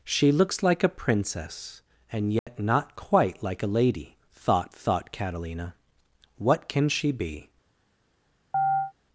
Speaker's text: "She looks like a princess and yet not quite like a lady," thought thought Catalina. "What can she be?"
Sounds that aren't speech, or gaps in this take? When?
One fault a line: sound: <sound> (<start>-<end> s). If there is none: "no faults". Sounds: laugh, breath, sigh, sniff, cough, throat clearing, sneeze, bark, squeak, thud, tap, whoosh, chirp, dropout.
sound: dropout (2.4-2.5 s)
sound: chirp (8.5-8.9 s)